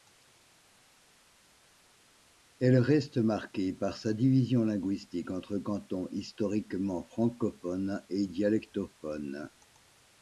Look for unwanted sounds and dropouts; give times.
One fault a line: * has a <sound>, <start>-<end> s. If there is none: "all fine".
all fine